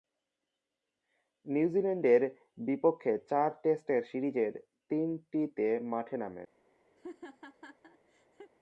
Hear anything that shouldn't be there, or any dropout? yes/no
yes